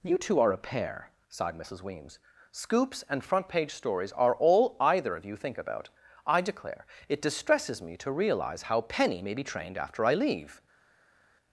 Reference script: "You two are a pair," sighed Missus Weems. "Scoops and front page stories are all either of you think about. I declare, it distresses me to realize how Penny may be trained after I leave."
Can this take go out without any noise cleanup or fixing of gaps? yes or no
yes